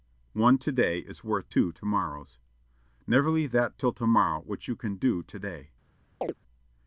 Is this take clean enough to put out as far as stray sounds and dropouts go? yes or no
no